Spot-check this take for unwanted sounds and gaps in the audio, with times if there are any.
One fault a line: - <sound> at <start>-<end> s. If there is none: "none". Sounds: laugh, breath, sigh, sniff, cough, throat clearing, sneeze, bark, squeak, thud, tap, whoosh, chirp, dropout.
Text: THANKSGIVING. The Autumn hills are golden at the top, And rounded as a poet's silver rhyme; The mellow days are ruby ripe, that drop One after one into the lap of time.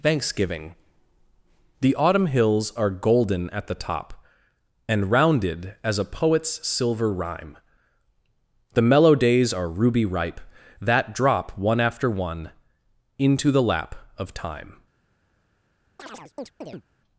- chirp at 16.0-16.8 s